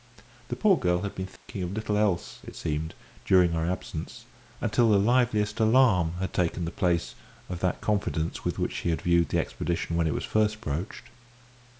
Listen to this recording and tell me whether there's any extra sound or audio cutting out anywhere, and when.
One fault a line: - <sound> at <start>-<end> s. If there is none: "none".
- dropout at 1.4-1.5 s